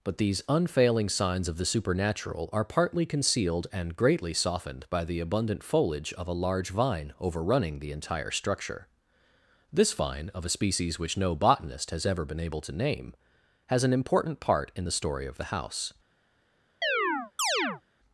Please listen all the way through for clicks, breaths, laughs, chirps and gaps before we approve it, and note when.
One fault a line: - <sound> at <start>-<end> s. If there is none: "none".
- chirp at 16.8-17.8 s